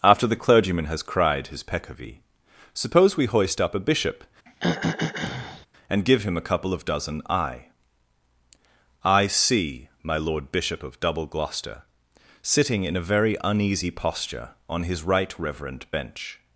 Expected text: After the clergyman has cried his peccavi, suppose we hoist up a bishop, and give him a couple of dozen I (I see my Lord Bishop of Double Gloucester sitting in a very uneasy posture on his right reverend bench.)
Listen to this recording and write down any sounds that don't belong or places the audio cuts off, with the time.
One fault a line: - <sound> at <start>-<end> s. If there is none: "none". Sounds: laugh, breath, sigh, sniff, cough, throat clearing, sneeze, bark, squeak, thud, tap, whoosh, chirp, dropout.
- throat clearing at 4.5-5.7 s